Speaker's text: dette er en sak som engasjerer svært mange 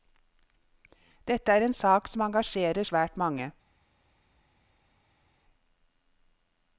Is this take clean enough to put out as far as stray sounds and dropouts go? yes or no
yes